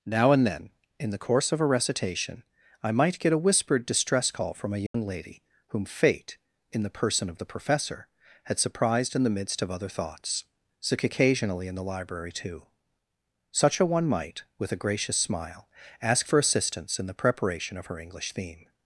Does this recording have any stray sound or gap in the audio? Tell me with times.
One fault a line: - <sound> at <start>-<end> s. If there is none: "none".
- dropout at 4.9-4.9 s